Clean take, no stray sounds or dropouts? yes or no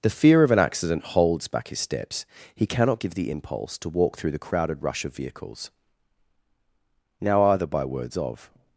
yes